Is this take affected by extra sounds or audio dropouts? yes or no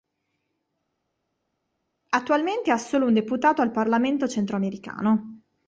no